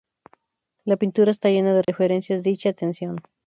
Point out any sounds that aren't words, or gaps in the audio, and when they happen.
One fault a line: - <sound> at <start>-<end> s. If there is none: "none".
- dropout at 1.8-1.9 s